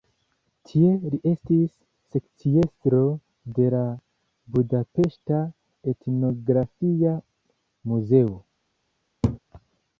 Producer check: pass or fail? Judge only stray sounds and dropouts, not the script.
fail